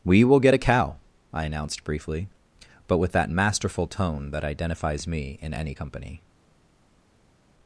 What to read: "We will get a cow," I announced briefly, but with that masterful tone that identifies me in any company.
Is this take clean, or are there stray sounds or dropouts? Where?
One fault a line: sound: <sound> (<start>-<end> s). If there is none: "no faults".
no faults